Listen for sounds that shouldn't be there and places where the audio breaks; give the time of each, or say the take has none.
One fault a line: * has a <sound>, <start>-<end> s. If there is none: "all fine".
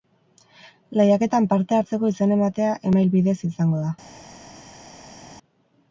all fine